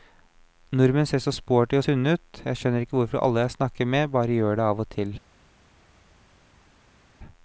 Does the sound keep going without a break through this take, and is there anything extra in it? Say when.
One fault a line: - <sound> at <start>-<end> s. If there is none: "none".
none